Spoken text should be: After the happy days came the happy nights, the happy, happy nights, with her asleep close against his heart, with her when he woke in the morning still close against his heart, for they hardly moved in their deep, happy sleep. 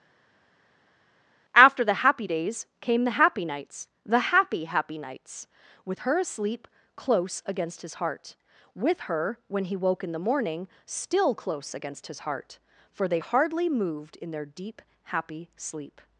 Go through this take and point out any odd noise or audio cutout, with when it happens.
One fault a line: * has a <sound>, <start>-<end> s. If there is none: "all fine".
all fine